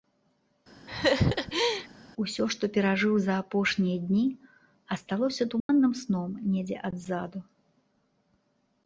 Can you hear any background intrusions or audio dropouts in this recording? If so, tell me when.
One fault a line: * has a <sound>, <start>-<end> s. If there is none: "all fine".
* has a laugh, 0.9-1.9 s
* has a dropout, 5.6-5.7 s